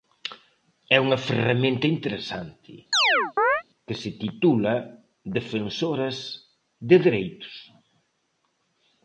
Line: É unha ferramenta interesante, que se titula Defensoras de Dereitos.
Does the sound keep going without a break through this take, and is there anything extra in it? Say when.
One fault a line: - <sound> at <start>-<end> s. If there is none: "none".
- chirp at 2.9-3.6 s